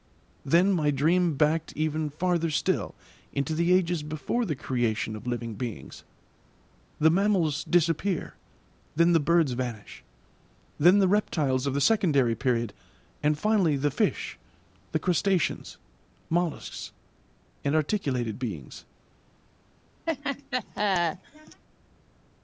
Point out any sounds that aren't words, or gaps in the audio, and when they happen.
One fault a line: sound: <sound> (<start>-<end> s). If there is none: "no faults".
sound: laugh (20.1-21.6 s)